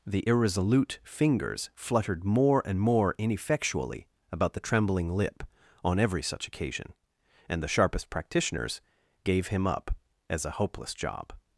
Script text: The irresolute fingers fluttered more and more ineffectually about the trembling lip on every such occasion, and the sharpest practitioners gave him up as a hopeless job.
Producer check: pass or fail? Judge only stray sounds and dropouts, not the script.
pass